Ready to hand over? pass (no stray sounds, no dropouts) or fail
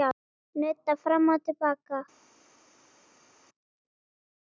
pass